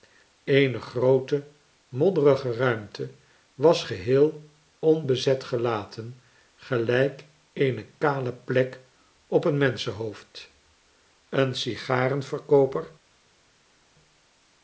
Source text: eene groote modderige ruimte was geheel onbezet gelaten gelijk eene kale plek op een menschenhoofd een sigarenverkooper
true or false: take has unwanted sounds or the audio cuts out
false